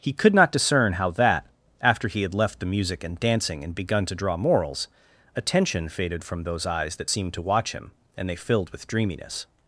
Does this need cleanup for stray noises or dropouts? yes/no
no